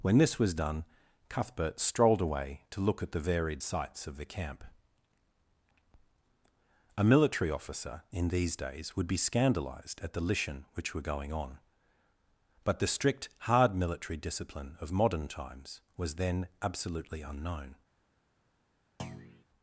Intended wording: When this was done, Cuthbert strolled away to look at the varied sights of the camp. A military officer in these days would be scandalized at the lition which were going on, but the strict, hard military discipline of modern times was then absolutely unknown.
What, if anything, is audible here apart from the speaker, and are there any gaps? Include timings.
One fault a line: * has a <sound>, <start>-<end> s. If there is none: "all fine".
* has a thud, 19.0-19.4 s